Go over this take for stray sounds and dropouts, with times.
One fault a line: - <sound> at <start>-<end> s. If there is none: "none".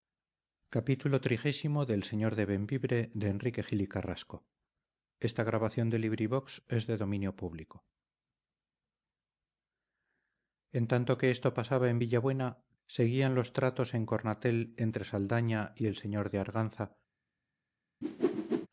- whoosh at 18.0-18.7 s